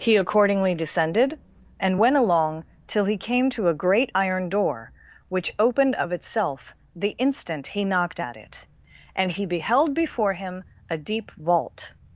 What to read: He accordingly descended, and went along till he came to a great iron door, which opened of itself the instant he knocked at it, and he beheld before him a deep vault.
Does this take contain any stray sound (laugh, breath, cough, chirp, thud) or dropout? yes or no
no